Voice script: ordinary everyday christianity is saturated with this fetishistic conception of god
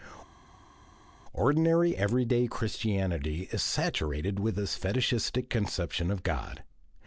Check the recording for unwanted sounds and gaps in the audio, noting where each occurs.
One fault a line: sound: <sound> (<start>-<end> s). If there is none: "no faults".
no faults